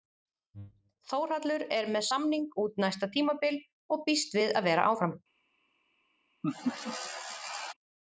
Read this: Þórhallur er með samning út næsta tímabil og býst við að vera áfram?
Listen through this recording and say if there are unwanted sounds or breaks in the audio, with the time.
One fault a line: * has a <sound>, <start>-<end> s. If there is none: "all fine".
* has a laugh, 6.4-7.7 s